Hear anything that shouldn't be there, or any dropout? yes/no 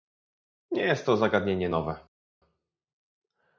no